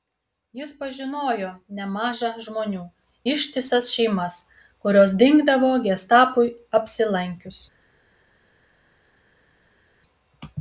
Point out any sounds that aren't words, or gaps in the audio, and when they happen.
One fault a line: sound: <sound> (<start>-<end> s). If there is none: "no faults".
no faults